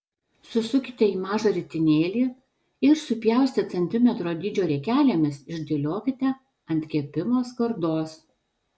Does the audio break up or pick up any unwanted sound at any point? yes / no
no